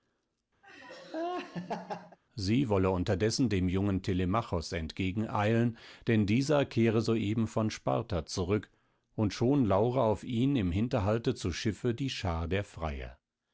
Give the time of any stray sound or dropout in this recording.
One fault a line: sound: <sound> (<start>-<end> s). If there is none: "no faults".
sound: laugh (0.6-2.2 s)